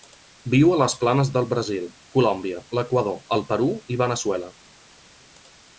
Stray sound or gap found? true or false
false